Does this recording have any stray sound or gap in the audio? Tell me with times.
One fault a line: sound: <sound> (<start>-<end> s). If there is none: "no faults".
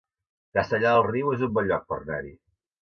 no faults